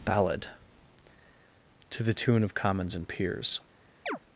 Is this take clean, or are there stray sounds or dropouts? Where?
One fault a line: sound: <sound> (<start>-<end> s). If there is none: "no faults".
sound: chirp (4.1-4.2 s)